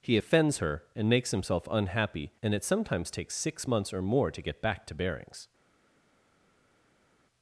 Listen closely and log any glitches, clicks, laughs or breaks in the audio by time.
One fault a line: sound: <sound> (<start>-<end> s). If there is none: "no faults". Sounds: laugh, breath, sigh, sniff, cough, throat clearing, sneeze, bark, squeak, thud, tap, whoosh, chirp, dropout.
no faults